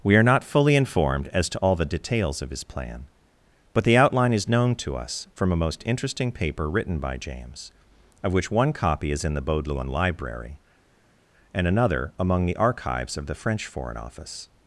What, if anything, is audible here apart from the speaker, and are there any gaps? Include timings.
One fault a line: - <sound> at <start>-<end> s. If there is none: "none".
none